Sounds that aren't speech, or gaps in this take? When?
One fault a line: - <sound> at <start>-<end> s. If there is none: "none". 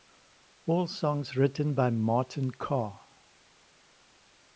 none